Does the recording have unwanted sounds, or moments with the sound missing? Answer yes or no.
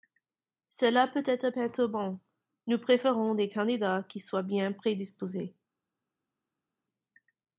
no